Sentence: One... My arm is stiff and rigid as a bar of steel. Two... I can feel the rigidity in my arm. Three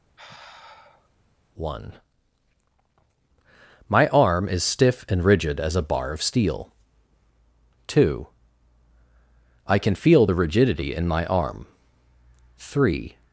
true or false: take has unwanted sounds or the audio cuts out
true